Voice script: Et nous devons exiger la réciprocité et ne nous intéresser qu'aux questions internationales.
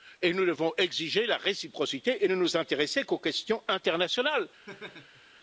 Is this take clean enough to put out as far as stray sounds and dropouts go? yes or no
no